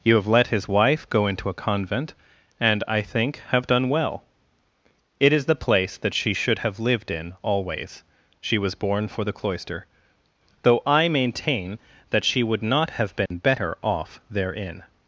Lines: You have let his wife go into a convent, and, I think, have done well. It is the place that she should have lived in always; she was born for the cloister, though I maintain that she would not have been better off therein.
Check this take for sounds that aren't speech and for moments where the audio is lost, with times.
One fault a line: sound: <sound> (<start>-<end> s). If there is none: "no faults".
sound: dropout (13.3-13.3 s)